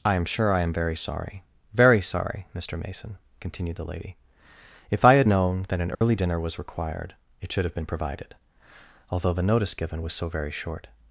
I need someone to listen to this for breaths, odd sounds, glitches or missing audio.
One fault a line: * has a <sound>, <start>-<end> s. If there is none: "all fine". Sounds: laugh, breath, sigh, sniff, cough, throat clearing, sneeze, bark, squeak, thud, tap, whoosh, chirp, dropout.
* has a dropout, 5.9-6.0 s